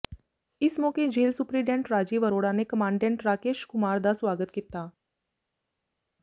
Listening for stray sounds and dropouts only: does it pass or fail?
pass